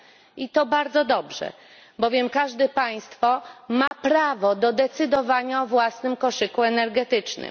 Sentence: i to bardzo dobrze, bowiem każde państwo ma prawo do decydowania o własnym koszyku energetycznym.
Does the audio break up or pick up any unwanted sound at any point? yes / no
yes